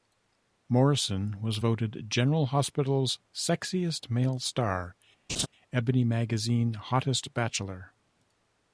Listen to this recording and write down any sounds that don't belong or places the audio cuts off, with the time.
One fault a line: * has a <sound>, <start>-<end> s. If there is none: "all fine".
* has a laugh, 5.3-5.5 s